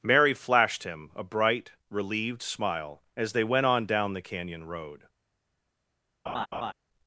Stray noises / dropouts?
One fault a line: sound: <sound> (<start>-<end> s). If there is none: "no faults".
sound: laugh (6.3-6.7 s)